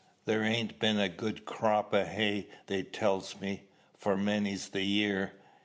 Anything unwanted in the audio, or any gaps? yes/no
no